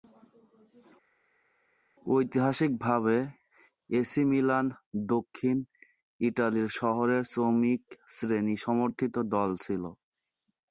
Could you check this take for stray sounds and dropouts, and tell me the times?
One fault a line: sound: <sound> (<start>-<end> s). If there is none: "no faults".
no faults